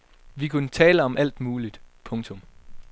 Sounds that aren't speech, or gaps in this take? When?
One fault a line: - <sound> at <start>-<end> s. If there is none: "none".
none